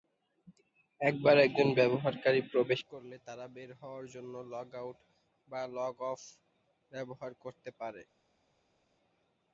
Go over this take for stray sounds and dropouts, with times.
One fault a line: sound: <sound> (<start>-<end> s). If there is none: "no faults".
no faults